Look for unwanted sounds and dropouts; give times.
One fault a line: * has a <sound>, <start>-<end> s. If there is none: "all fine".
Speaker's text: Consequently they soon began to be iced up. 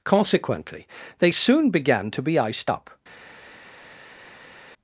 all fine